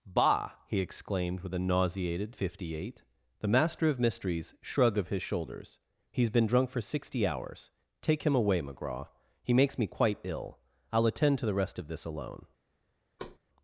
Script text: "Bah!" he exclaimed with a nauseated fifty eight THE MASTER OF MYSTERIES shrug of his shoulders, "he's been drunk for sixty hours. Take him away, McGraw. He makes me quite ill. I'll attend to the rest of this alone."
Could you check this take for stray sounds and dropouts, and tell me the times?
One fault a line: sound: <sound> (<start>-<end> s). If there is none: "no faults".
sound: thud (13.2-13.4 s)